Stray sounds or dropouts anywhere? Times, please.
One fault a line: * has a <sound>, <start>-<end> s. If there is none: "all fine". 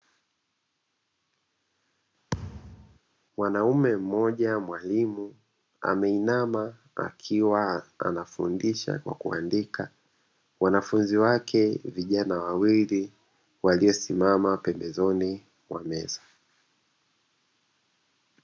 * has a thud, 2.3-3.0 s